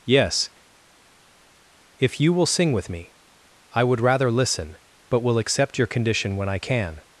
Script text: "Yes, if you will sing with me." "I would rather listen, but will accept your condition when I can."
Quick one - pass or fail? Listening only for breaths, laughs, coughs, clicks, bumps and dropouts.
pass